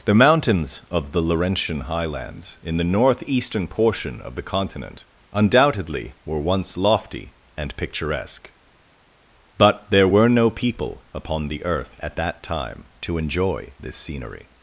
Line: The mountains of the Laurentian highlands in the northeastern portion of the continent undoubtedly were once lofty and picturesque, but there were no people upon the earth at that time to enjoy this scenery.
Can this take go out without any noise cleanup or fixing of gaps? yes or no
yes